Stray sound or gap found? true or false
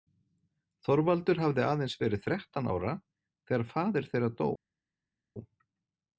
false